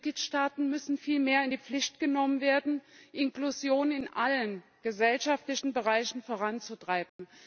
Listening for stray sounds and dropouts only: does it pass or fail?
fail